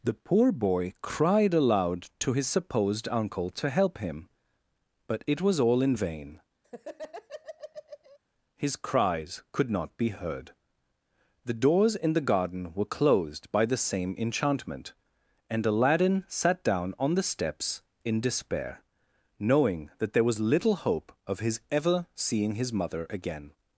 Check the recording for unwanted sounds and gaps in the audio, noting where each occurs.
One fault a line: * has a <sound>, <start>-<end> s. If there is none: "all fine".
* has a laugh, 6.6-8.2 s